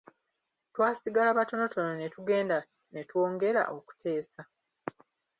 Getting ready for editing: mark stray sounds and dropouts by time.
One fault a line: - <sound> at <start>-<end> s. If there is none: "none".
none